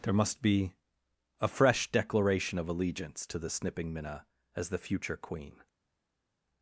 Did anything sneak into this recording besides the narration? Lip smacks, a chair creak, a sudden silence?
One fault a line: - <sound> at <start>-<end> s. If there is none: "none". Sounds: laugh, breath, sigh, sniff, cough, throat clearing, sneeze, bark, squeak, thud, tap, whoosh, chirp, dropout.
none